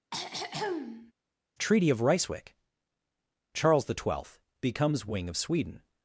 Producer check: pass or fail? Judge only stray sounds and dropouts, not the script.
fail